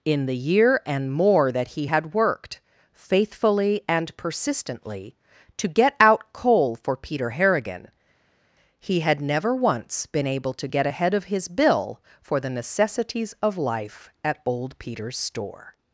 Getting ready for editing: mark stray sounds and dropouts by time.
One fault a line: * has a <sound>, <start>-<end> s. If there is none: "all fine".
all fine